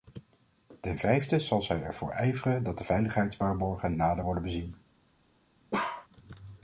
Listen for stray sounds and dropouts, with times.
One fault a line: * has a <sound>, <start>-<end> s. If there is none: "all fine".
* has a bark, 5.7-6.1 s